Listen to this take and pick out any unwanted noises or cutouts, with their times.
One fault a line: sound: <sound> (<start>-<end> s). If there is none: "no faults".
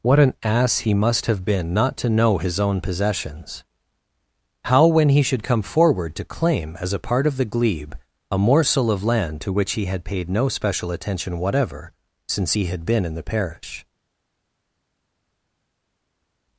no faults